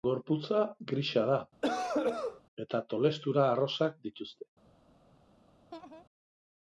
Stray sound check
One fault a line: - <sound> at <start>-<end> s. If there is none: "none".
- cough at 1.6-2.4 s
- laugh at 5.7-6.0 s